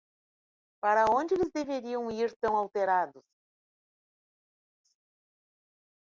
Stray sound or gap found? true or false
false